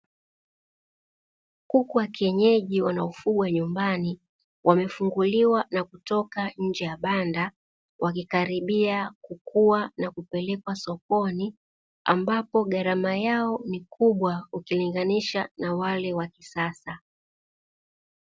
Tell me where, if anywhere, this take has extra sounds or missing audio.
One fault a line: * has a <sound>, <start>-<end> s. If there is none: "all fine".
all fine